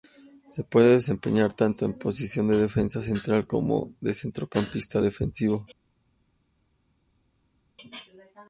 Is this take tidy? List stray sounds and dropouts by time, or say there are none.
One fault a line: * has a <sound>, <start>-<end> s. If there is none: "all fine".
all fine